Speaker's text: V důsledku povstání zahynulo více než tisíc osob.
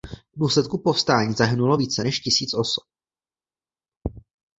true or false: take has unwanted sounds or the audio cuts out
false